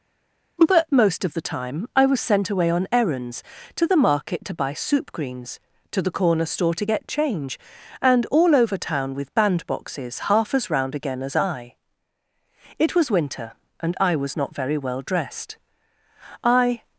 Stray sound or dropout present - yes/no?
no